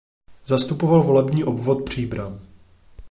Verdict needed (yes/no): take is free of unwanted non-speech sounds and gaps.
yes